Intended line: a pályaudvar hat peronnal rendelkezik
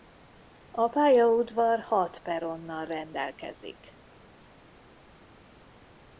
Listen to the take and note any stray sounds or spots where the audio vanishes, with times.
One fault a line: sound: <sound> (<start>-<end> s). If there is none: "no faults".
no faults